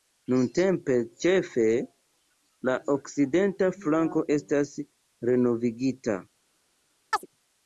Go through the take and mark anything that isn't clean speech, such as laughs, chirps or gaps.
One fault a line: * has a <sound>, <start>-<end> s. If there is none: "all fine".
* has a chirp, 7.1-7.3 s